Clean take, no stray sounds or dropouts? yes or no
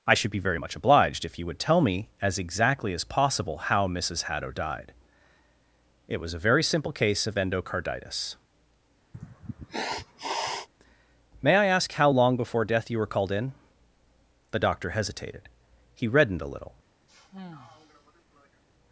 no